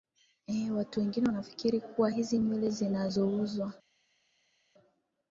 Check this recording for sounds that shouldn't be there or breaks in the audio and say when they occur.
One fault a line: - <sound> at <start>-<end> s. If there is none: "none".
none